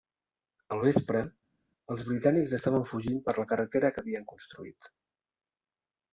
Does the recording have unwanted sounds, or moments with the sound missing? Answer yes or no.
no